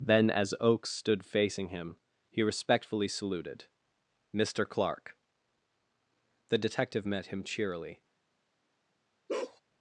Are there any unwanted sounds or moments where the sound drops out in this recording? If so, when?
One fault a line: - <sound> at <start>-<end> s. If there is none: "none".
- bark at 9.3-9.6 s